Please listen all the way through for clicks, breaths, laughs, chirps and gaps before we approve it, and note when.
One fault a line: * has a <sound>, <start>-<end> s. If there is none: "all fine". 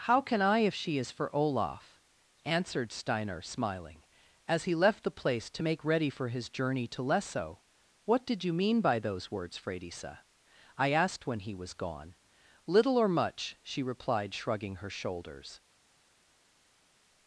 all fine